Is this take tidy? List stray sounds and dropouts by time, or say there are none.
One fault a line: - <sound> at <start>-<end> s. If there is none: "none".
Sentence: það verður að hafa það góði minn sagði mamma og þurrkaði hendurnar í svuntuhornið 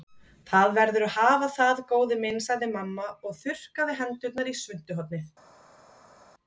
none